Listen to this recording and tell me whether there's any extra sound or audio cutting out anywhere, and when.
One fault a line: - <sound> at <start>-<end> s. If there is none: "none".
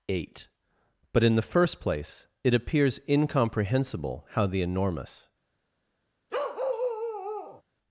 - bark at 6.3-7.6 s